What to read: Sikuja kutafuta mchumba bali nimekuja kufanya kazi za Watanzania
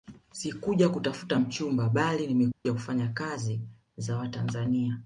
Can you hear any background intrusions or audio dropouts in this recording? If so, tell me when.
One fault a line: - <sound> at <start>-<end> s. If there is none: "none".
- dropout at 2.5-2.7 s